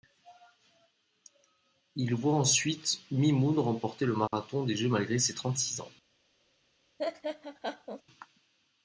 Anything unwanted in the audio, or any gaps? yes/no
yes